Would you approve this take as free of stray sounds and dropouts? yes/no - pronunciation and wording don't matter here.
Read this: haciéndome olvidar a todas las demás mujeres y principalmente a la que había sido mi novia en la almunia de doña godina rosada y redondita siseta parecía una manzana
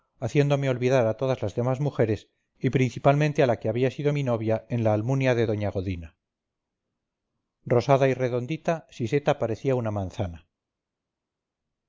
yes